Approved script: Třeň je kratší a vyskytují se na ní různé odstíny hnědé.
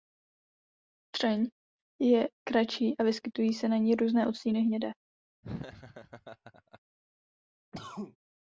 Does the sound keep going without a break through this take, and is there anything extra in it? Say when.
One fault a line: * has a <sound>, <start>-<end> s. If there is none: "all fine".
* has a laugh, 5.4-6.8 s
* has a cough, 7.7-8.2 s